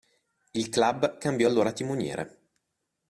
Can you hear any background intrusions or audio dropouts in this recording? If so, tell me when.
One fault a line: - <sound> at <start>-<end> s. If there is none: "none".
none